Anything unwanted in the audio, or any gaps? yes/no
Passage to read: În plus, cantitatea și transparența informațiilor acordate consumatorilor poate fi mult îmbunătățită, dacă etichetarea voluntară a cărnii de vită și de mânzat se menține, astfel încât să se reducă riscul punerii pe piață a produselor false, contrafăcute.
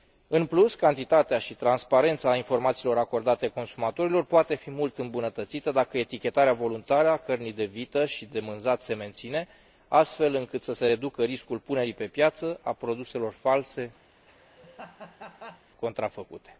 yes